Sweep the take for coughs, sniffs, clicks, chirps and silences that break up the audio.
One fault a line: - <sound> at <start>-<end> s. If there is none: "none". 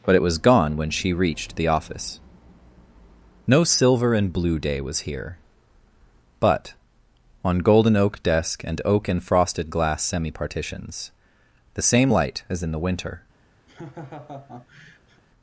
- laugh at 13.7-15.2 s